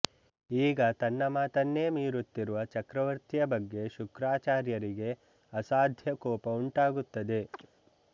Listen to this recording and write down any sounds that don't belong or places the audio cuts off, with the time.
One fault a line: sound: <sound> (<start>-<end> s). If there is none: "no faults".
sound: chirp (7.5-7.7 s)